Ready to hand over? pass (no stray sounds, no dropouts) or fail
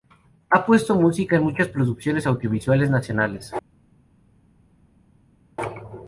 pass